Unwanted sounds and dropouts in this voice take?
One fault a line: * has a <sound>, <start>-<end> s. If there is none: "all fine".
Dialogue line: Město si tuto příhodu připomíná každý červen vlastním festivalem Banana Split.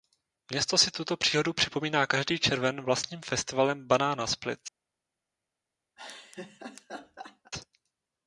* has a laugh, 6.0-7.5 s